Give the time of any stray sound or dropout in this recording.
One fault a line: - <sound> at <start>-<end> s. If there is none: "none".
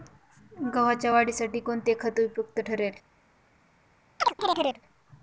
- chirp at 4.2-4.8 s